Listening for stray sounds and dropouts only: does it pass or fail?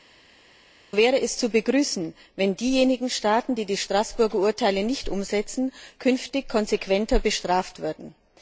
pass